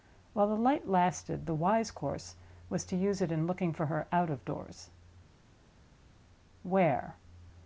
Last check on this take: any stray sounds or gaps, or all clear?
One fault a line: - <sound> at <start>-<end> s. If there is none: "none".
none